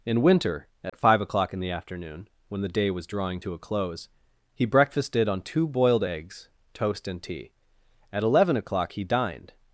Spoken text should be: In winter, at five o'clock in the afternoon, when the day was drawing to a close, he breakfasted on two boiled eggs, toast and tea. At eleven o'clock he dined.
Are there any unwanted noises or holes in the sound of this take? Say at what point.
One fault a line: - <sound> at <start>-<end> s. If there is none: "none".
- dropout at 0.9-0.9 s